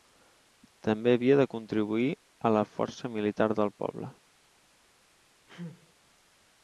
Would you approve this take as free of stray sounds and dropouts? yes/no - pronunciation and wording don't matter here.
no